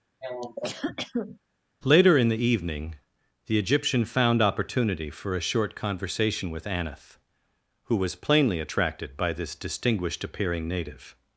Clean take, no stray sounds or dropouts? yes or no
no